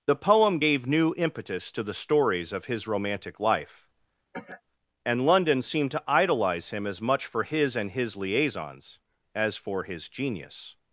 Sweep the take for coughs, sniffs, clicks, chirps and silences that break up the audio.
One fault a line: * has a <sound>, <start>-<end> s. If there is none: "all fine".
* has a cough, 4.3-4.6 s